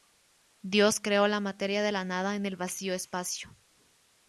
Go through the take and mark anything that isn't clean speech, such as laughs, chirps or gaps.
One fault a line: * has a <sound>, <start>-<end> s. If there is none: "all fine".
all fine